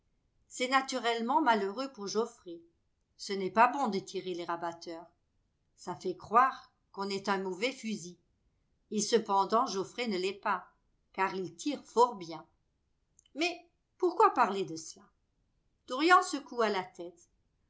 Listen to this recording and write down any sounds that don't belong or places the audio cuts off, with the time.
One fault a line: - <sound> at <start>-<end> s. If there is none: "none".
none